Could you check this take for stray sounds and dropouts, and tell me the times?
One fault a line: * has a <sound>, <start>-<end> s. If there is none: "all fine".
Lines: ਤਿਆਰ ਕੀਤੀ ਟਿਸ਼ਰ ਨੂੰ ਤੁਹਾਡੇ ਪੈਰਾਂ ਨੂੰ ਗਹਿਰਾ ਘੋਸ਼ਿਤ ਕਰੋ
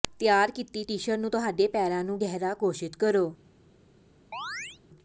* has a chirp, 4.3-4.8 s